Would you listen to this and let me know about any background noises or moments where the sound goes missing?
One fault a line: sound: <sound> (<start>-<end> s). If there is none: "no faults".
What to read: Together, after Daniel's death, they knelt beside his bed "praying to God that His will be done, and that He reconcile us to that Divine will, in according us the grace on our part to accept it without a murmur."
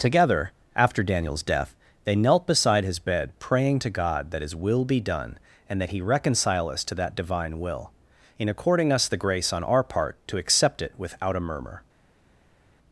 no faults